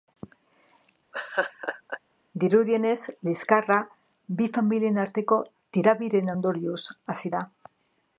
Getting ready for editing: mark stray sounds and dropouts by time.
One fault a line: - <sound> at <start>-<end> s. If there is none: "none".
- laugh at 1.1-2.0 s